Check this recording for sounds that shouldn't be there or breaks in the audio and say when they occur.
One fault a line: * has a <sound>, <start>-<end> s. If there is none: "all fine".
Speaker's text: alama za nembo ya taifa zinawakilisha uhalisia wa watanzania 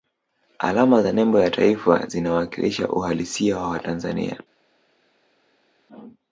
all fine